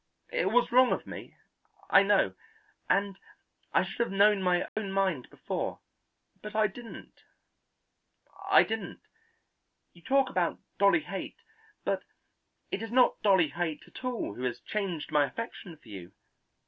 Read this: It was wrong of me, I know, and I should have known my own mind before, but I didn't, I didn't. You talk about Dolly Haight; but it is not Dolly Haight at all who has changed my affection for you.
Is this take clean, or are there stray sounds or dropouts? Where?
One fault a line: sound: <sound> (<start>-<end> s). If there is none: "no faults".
sound: dropout (4.7-4.8 s)